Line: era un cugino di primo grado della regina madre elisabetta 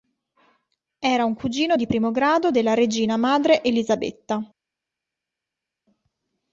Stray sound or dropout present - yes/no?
no